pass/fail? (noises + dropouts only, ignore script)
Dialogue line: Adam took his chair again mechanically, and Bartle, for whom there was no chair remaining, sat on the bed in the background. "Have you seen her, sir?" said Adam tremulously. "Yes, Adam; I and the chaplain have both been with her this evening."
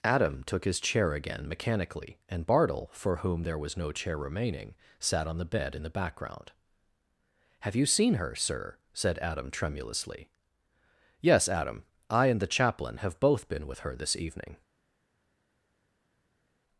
pass